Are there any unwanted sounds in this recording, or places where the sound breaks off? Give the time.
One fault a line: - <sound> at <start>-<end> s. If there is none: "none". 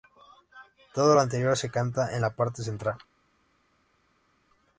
none